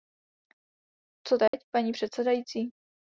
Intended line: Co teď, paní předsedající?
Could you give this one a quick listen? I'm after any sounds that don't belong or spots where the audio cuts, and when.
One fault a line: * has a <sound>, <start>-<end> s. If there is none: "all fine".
* has a dropout, 1.5-1.5 s